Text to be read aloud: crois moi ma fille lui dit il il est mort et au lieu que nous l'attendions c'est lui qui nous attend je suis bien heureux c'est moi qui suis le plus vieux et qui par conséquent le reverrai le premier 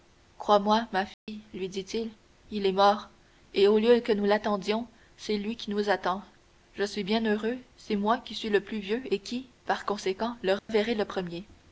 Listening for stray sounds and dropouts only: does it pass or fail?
fail